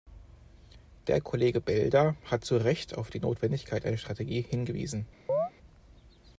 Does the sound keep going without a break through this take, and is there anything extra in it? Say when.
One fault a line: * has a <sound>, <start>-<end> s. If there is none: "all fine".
* has a chirp, 5.3-5.5 s